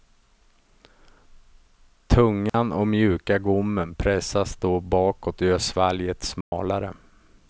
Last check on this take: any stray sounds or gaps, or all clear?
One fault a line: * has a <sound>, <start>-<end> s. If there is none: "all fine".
* has a dropout, 2.5-2.5 s
* has a dropout, 6.4-6.5 s